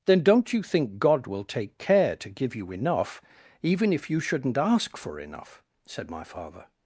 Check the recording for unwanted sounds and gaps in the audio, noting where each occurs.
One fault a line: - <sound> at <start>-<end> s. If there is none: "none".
none